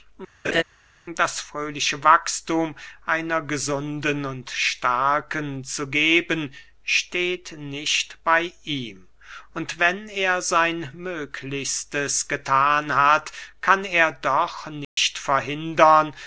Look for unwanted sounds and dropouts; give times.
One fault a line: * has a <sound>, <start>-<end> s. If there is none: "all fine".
* has a laugh, 0.4-0.6 s
* has a dropout, 14.8-15.0 s